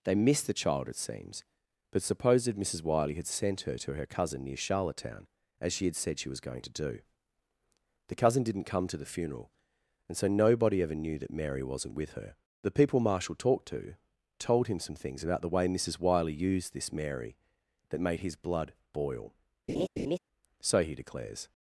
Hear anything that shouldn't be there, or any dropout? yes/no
yes